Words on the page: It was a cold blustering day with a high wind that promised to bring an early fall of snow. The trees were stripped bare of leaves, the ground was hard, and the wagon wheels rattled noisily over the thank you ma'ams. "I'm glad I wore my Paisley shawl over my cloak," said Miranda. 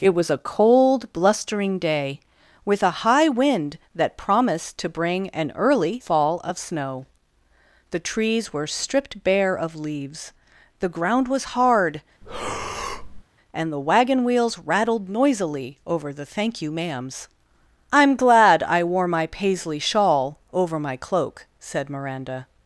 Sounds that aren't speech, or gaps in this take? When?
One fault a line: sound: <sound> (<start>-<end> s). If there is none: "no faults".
sound: breath (12.2-13.2 s)